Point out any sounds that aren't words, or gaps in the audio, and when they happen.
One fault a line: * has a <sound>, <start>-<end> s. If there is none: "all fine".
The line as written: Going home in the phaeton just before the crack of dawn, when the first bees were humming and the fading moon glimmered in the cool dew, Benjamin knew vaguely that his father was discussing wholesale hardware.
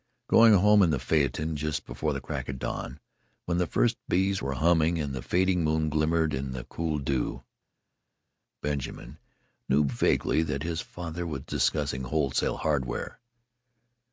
all fine